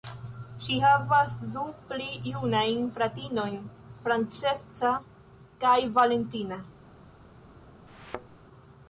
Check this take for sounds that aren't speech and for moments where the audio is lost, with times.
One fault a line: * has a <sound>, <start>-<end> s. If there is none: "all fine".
* has a thud, 7.9-8.4 s